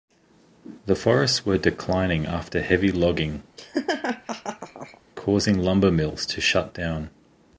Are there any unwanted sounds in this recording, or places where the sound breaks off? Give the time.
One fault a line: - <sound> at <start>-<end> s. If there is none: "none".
- laugh at 3.6-5.0 s